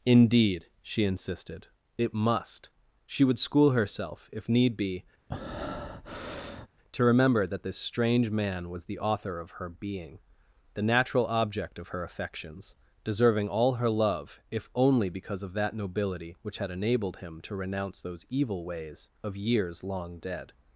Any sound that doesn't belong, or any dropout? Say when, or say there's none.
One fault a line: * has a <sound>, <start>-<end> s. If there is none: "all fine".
* has a breath, 5.3-6.7 s